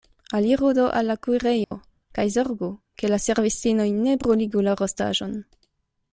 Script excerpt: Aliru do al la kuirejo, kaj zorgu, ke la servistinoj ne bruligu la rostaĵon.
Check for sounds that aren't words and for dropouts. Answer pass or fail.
fail